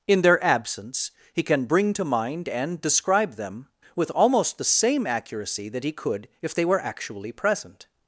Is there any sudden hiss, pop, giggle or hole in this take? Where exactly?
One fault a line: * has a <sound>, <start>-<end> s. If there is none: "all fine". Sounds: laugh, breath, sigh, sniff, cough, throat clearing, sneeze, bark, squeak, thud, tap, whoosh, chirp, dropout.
all fine